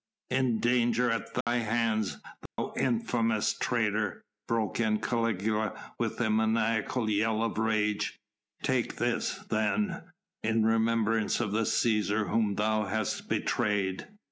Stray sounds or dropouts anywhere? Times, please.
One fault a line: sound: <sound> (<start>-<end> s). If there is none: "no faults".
sound: dropout (1.4-1.5 s)
sound: dropout (2.5-2.6 s)